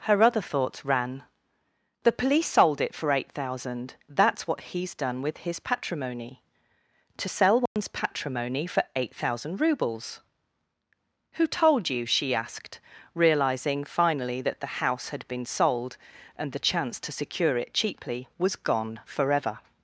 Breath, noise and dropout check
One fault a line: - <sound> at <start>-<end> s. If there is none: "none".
- dropout at 7.7-7.8 s